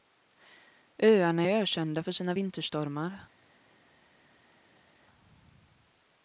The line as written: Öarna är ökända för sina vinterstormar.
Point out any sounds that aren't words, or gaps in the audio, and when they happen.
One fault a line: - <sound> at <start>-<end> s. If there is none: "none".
none